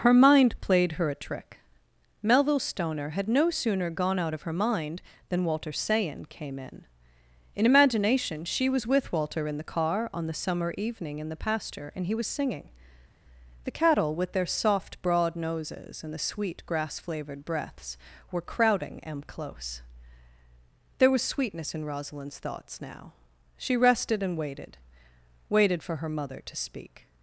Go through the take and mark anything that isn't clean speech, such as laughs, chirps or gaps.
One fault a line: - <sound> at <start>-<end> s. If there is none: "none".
none